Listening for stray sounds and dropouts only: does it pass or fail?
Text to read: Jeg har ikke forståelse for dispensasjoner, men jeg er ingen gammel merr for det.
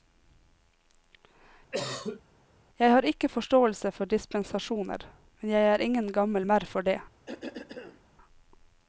fail